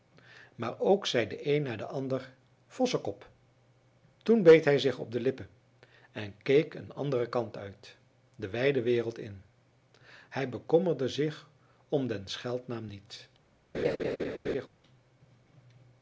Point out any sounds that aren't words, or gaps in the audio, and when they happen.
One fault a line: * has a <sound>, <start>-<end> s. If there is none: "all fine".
* has a laugh, 13.7-14.7 s